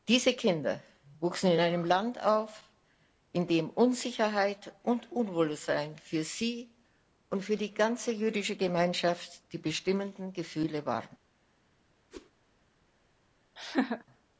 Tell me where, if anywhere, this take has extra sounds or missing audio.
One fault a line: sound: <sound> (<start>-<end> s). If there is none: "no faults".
sound: whoosh (12.1-12.3 s)
sound: laugh (13.6-14.0 s)